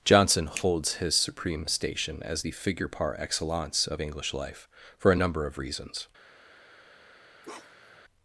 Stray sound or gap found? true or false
true